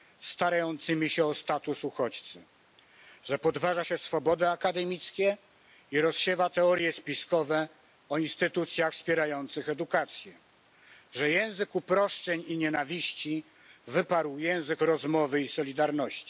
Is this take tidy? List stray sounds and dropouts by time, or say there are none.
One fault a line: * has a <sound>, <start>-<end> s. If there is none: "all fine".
all fine